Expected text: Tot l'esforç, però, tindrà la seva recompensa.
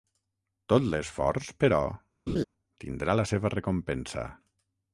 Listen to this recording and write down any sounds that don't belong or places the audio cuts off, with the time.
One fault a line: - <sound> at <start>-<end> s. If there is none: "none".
- laugh at 2.3-2.4 s